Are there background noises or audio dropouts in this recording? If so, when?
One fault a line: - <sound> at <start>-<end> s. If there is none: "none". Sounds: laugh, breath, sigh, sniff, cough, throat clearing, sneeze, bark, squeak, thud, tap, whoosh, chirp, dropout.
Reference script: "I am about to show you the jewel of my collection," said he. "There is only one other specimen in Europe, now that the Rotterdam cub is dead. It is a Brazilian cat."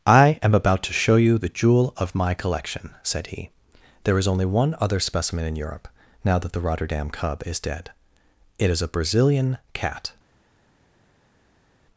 none